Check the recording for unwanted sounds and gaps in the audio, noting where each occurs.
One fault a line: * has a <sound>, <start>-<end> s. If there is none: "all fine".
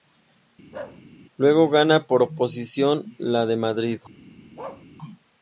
* has a bark, 0.7-1.0 s
* has a bark, 4.6-4.9 s